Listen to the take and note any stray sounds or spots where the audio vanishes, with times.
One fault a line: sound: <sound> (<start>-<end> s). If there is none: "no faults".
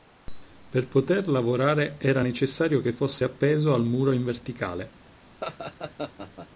sound: laugh (5.4-6.5 s)